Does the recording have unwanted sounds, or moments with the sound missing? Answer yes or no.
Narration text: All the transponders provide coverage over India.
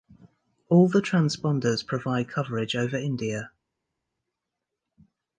no